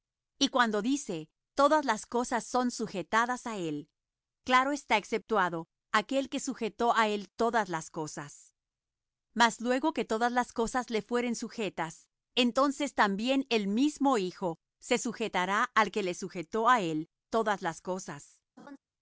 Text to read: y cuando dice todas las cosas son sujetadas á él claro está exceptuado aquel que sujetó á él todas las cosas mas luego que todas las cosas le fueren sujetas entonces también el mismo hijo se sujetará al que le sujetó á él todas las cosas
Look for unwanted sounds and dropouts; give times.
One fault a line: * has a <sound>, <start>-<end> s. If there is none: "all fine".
* has a laugh, 18.6-18.8 s